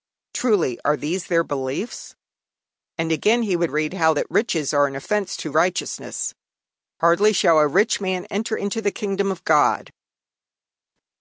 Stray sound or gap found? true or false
false